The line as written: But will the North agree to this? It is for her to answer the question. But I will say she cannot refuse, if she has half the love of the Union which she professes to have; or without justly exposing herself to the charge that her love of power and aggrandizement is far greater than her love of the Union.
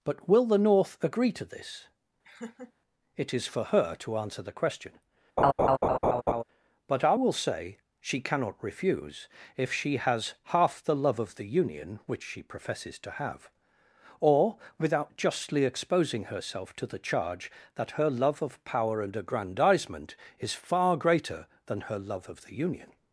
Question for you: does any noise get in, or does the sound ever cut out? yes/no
yes